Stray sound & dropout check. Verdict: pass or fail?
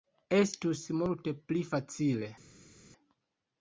pass